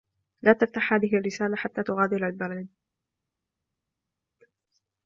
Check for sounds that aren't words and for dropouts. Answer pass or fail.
pass